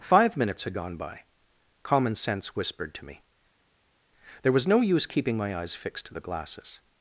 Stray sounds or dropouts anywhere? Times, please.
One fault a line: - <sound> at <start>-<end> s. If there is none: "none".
none